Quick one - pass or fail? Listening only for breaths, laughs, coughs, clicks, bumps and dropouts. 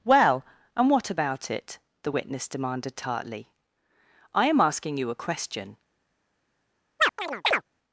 fail